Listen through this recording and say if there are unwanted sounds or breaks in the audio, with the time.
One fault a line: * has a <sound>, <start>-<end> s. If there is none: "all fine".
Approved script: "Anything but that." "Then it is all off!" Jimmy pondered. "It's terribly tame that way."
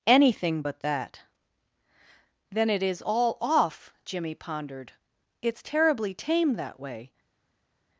all fine